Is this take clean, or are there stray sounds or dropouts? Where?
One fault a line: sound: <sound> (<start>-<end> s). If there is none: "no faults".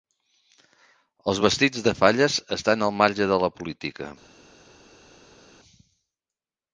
no faults